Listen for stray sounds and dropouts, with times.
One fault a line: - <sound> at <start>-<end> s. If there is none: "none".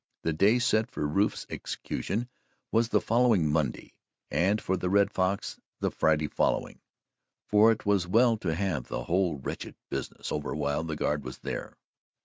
none